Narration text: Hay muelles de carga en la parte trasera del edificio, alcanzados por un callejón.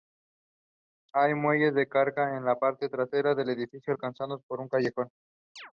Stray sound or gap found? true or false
true